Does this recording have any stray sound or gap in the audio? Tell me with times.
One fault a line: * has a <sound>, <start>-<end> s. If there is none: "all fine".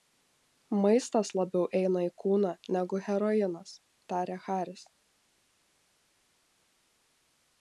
all fine